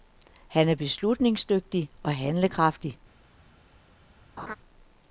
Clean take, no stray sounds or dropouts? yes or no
no